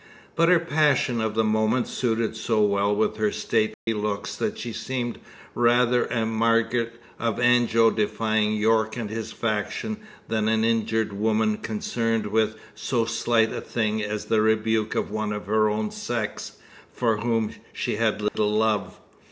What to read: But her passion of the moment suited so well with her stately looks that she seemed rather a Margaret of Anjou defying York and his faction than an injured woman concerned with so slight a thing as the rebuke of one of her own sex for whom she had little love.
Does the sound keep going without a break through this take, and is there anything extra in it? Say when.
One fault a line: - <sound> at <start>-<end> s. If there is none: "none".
- dropout at 3.7-3.9 s
- dropout at 18.3-18.3 s